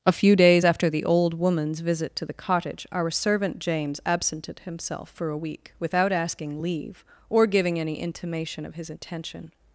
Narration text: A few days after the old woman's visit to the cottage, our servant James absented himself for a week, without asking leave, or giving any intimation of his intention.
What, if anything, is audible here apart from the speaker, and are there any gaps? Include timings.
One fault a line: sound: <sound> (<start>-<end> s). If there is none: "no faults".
no faults